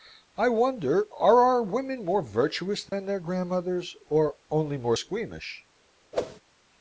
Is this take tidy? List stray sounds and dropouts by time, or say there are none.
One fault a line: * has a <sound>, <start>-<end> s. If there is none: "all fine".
* has a dropout, 2.9-2.9 s
* has a whoosh, 6.1-6.4 s